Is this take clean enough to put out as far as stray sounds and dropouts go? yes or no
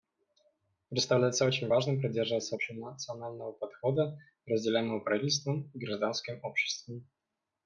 yes